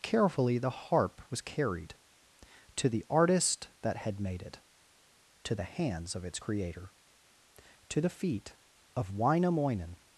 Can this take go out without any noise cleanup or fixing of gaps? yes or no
yes